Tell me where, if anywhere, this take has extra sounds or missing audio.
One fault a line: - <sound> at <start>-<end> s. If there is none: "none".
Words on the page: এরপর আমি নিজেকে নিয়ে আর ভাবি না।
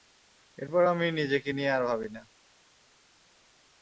none